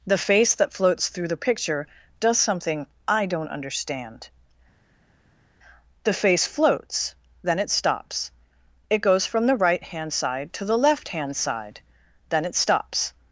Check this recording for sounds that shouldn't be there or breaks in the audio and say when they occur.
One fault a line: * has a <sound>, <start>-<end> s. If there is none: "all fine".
all fine